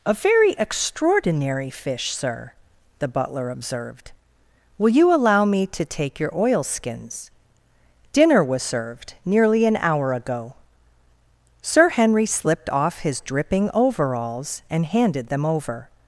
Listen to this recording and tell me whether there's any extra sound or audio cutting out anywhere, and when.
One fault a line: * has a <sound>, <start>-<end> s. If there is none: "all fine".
all fine